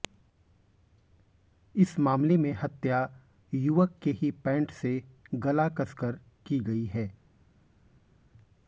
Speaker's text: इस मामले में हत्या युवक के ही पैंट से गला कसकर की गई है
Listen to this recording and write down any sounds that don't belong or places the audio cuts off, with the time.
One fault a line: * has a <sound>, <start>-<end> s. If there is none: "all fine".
all fine